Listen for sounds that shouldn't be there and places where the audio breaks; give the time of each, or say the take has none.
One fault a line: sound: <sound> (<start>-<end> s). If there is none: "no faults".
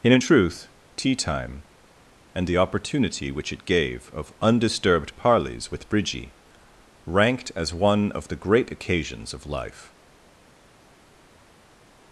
no faults